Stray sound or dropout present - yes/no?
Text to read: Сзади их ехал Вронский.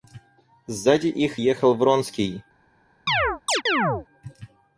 yes